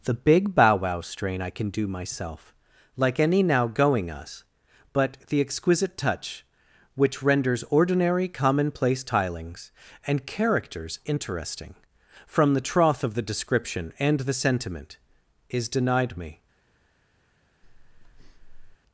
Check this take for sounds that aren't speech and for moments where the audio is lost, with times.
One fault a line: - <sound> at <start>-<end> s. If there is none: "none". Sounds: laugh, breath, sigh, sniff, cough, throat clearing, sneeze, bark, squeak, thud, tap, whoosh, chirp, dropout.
- breath at 17.6-18.8 s